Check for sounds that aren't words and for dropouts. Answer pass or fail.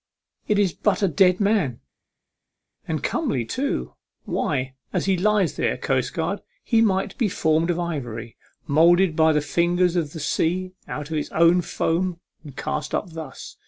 pass